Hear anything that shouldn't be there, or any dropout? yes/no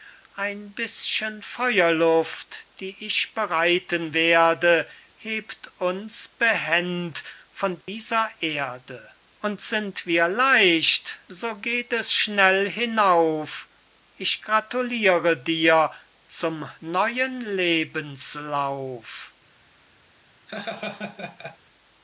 yes